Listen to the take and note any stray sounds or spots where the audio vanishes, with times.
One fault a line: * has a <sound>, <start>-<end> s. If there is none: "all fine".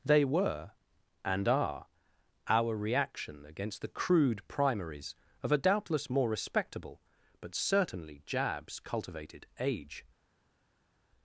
all fine